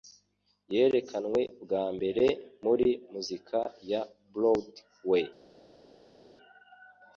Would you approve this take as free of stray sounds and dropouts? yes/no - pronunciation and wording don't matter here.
yes